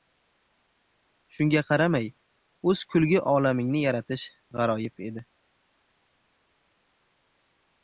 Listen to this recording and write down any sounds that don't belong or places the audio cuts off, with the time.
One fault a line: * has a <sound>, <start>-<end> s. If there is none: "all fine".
all fine